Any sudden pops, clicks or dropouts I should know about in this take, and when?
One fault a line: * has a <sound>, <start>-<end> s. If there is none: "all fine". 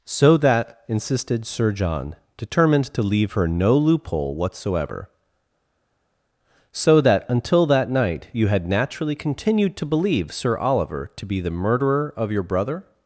all fine